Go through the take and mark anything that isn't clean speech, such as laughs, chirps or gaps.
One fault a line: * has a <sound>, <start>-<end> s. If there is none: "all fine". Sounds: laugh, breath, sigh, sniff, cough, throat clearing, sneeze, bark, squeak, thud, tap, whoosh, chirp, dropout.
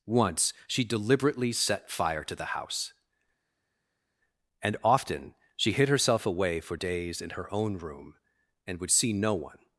all fine